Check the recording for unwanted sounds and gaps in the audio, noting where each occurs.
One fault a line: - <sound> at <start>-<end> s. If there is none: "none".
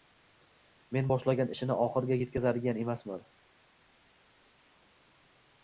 none